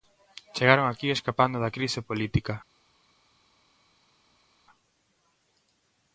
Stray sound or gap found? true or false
false